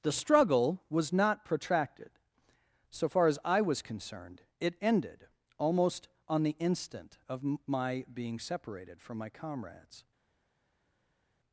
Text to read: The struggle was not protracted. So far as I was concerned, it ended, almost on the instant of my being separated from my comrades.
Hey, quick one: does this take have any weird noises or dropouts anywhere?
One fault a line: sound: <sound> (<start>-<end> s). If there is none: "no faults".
no faults